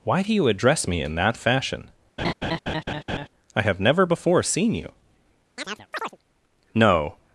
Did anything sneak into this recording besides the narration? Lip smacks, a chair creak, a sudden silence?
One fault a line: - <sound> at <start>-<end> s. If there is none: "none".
- laugh at 2.2-3.3 s
- chirp at 5.6-6.2 s